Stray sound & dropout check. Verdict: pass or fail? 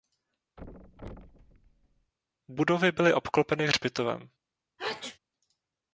fail